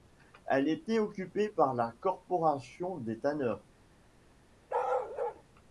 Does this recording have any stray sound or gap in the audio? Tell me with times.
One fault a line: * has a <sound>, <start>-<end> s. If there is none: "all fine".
* has a bark, 4.7-5.4 s